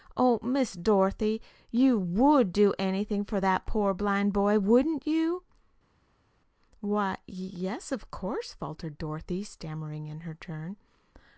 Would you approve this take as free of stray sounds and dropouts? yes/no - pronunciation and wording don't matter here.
yes